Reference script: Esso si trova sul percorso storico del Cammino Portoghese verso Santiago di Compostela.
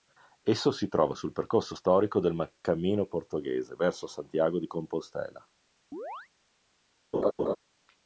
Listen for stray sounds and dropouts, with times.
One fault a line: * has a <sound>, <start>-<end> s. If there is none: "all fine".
* has a chirp, 5.9-6.3 s
* has a laugh, 7.1-7.6 s